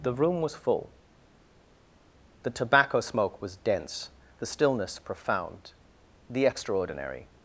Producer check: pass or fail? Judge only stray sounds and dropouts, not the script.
pass